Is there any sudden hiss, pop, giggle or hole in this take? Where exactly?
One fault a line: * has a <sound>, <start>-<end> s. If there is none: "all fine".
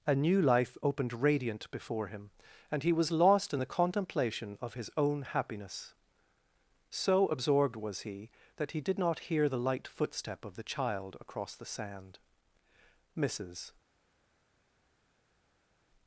all fine